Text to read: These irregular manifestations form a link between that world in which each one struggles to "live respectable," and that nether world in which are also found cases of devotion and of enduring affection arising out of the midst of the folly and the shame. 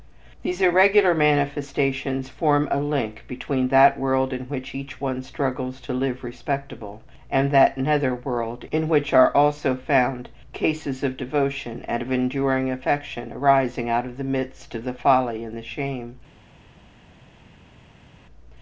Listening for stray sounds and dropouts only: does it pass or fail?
pass